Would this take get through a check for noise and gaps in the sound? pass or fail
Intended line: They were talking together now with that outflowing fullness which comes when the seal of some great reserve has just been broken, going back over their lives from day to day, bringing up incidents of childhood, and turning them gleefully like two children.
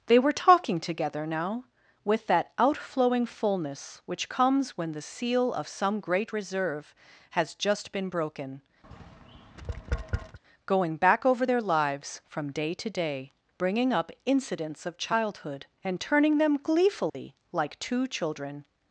fail